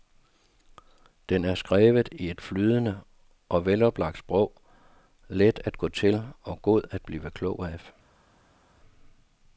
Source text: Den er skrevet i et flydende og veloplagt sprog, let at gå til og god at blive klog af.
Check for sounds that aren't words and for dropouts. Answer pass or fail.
pass